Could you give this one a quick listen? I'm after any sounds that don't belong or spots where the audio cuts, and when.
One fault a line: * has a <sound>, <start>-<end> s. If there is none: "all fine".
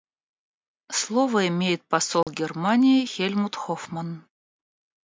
* has a dropout, 2.2-2.3 s